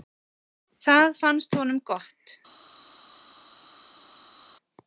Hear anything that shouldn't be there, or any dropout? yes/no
no